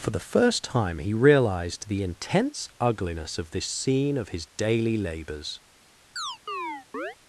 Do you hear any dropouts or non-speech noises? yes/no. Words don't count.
yes